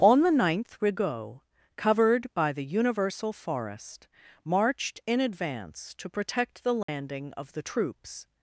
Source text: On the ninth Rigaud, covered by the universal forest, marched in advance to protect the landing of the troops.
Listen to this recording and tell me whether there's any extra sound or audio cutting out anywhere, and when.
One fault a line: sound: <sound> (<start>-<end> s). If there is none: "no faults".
sound: dropout (6.8-6.9 s)